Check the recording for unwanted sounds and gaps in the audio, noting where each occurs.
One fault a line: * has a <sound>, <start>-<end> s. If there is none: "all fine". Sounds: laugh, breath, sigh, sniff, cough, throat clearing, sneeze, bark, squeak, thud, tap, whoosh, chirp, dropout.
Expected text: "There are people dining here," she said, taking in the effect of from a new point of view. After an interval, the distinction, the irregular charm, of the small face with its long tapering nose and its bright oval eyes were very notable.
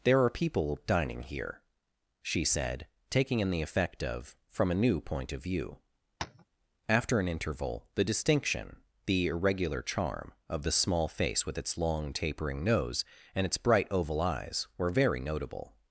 * has a tap, 6.2-6.4 s